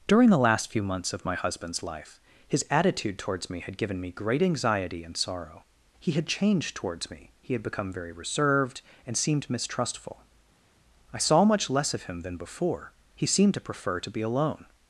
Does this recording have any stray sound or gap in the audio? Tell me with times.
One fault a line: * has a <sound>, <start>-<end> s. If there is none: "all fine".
all fine